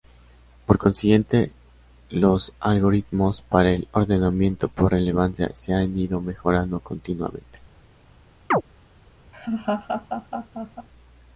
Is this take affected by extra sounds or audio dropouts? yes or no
yes